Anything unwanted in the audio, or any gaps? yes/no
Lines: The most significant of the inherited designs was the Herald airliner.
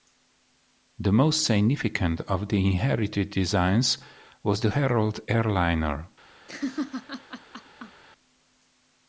yes